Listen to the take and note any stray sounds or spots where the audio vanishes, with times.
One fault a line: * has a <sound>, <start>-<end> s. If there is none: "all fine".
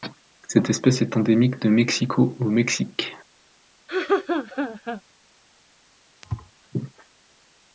* has a laugh, 3.9-5.0 s
* has a thud, 6.2-6.5 s